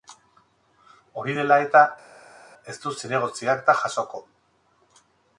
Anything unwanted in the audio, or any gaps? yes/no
no